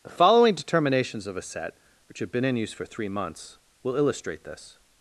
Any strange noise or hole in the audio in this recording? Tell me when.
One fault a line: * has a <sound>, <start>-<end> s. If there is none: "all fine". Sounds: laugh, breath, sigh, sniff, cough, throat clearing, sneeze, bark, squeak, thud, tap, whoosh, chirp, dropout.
all fine